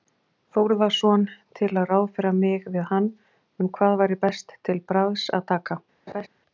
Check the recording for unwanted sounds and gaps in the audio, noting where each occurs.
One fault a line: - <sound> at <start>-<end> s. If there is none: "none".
- laugh at 6.1-6.3 s